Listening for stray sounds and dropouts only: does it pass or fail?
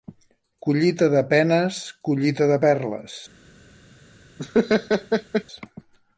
fail